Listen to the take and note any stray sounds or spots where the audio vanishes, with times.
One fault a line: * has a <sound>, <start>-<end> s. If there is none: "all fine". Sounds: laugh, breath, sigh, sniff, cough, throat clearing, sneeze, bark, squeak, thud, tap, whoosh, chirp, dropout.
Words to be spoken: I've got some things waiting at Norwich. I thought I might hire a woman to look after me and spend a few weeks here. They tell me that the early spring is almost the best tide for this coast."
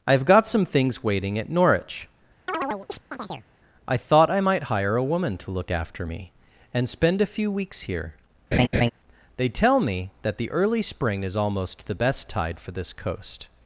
* has a chirp, 2.5-3.5 s
* has a laugh, 8.5-8.9 s